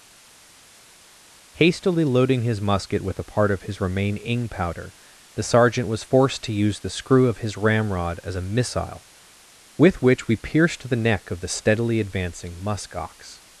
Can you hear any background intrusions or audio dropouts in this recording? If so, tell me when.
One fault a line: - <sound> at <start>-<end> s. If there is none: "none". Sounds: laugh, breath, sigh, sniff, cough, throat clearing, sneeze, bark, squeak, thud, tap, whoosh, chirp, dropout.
none